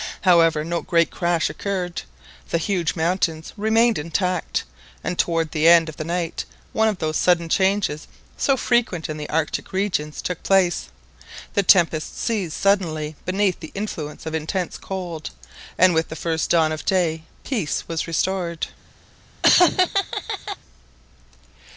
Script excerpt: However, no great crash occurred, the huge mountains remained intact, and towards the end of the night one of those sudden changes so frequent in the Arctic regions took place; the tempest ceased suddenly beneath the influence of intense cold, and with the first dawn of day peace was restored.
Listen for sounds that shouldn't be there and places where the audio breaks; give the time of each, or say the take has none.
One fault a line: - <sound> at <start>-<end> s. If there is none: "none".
- laugh at 19.4-20.6 s